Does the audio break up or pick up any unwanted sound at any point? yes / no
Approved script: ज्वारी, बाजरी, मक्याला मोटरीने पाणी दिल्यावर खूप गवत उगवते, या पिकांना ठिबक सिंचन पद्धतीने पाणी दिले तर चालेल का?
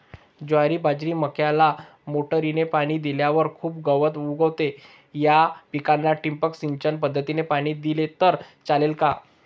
no